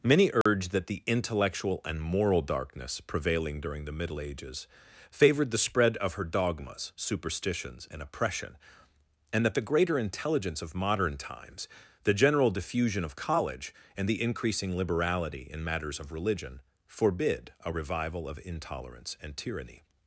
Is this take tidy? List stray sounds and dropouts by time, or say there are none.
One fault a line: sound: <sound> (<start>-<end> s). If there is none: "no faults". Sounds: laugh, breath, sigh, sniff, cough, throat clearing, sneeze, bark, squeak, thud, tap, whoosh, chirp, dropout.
sound: dropout (0.4-0.5 s)